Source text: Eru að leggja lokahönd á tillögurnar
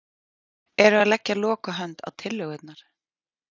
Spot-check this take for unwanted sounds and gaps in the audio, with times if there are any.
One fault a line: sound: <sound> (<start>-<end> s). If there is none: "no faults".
no faults